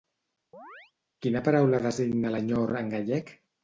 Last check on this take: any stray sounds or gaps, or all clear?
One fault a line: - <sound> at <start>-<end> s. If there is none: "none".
- chirp at 0.5-0.9 s